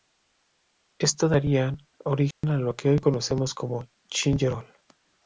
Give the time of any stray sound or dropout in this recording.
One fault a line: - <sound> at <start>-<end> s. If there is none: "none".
- dropout at 2.3-2.4 s